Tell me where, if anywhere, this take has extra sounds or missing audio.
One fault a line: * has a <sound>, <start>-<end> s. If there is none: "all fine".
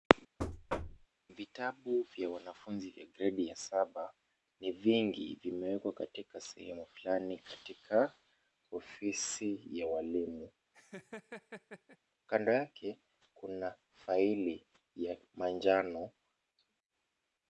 * has a thud, 0.4-1.1 s
* has a laugh, 10.7-12.0 s